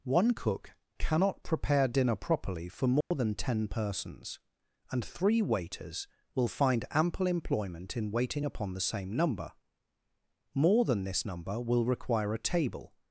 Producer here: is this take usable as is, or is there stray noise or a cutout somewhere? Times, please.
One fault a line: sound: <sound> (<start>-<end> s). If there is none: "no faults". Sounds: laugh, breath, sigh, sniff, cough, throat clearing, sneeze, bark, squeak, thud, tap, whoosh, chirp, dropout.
sound: dropout (3.0-3.1 s)